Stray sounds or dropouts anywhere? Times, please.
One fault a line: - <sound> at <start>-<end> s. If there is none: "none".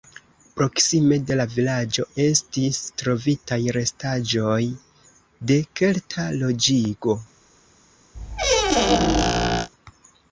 - squeak at 8.1-9.7 s